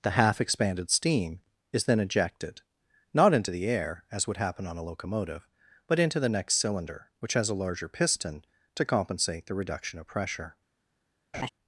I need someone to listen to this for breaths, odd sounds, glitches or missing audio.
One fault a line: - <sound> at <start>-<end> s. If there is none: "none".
- laugh at 11.3-11.5 s